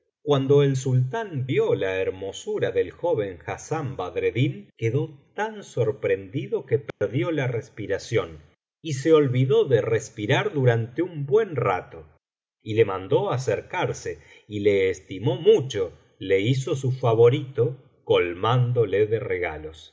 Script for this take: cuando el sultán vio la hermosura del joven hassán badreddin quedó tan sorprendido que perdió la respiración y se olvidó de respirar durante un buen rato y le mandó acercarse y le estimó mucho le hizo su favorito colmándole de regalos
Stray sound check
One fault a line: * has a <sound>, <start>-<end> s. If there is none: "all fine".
* has a dropout, 6.9-7.0 s